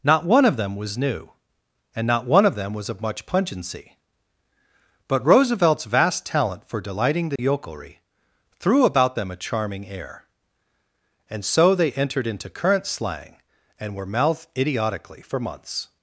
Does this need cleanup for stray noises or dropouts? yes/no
yes